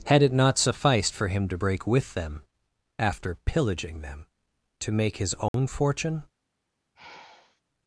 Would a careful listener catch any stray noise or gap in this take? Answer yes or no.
yes